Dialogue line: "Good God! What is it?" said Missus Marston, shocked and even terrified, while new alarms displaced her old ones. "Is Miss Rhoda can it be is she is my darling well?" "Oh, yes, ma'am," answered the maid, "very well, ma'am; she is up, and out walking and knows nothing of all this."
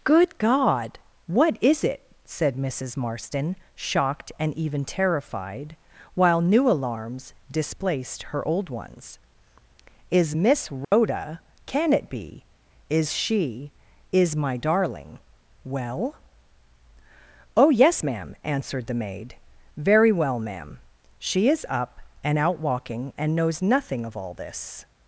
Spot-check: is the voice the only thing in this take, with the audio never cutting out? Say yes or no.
no